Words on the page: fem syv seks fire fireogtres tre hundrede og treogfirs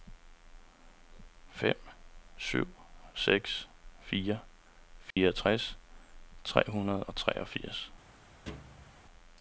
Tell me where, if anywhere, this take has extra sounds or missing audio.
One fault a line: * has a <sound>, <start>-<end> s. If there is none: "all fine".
* has a dropout, 5.1-5.2 s
* has a thud, 8.5-9.0 s